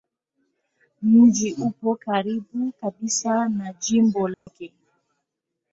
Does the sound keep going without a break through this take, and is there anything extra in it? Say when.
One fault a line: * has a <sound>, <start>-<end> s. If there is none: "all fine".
* has a dropout, 4.3-4.5 s